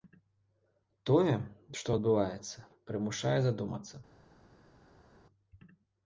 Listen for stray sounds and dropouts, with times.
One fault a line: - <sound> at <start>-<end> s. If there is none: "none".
none